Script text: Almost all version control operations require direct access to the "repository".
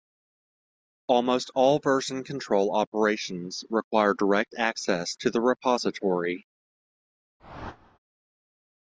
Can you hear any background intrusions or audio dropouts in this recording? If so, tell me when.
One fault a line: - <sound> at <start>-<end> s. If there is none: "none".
- whoosh at 7.4-8.0 s